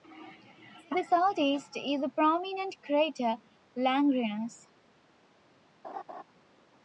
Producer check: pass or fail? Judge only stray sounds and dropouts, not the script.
fail